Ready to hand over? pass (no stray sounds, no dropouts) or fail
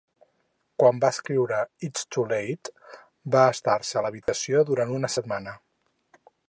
fail